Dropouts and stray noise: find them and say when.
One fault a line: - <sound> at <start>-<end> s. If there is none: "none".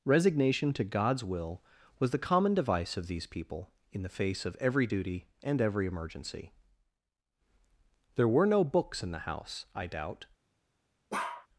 - bark at 11.1-11.5 s